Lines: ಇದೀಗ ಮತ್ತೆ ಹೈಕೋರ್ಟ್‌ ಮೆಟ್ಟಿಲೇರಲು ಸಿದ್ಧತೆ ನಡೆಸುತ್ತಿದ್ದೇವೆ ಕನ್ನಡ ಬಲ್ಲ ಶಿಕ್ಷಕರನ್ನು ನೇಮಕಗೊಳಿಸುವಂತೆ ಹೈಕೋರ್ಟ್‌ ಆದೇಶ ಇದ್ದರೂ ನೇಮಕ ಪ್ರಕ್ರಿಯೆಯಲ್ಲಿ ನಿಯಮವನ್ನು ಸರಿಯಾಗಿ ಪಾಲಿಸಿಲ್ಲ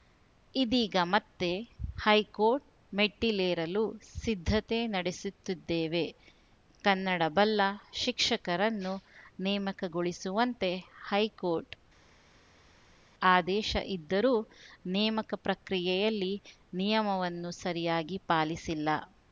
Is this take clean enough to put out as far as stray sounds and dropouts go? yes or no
yes